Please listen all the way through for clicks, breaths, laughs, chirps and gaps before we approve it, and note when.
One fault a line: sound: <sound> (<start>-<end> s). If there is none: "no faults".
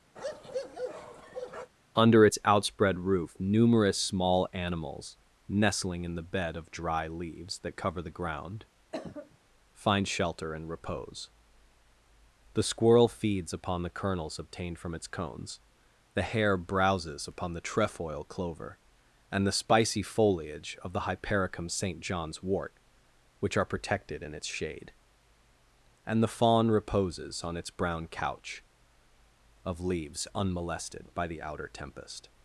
sound: bark (0.2-1.7 s)
sound: cough (8.9-9.4 s)